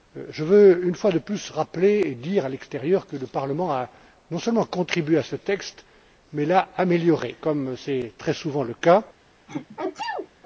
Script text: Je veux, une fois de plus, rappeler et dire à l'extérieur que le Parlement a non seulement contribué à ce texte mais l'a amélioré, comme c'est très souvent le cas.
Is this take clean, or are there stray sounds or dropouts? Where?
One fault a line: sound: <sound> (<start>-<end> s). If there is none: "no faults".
sound: sneeze (9.5-10.3 s)